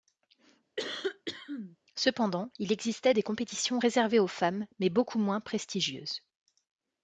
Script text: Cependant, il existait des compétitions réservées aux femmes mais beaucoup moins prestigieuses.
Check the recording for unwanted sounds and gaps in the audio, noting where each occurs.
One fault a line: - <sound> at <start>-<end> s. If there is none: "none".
- cough at 0.8-1.8 s